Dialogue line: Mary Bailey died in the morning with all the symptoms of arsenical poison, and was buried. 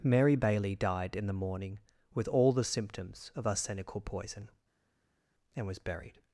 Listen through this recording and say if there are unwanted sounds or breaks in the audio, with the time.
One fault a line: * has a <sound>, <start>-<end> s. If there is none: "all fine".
all fine